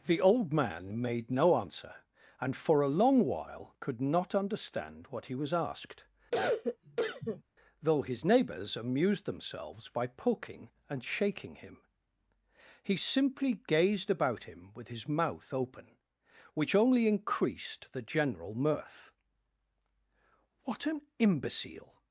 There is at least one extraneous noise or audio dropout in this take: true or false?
true